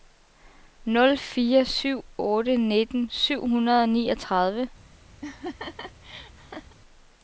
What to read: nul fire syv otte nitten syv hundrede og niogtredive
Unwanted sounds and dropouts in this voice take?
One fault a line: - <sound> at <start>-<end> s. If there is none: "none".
- laugh at 5.2-6.8 s